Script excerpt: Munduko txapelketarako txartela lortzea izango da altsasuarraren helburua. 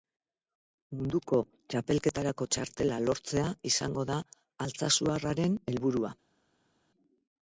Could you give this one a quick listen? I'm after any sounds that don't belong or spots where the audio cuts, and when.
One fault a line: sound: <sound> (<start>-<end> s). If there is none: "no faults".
no faults